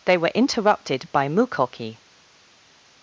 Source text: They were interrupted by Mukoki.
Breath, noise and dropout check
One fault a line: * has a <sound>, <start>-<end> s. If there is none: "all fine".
all fine